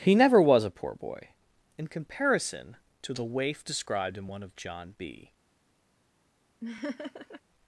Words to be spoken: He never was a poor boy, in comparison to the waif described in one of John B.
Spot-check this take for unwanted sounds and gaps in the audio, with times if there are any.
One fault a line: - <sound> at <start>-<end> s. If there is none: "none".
- laugh at 6.6-7.4 s